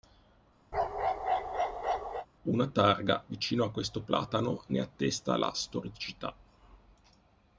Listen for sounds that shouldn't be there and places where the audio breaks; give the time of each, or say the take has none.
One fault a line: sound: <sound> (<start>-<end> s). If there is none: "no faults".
sound: bark (0.7-2.3 s)